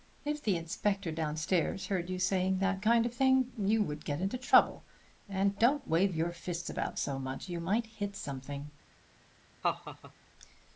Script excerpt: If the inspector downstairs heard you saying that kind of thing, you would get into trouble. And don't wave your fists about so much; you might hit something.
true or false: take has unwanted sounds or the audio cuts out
true